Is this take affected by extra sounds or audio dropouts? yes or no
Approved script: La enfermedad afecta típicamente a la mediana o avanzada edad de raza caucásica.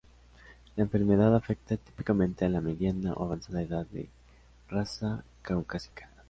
no